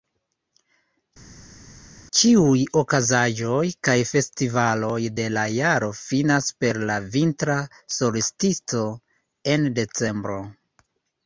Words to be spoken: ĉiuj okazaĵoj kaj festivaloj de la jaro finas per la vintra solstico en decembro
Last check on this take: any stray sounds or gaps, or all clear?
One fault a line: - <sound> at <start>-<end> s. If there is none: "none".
none